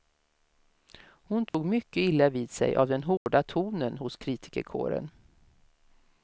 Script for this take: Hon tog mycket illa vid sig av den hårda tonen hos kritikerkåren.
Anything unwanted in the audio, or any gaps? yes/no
yes